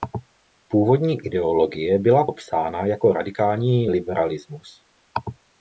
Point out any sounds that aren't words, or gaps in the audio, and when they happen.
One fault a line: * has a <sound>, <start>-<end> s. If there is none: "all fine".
all fine